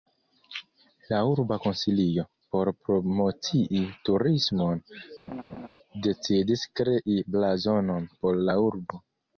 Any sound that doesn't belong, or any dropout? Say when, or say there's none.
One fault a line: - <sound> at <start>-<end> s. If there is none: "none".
- laugh at 5.3-5.7 s